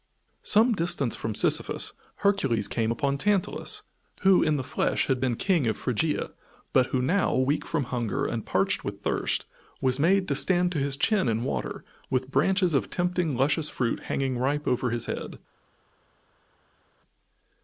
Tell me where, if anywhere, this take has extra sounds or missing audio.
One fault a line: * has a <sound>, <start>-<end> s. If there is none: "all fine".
all fine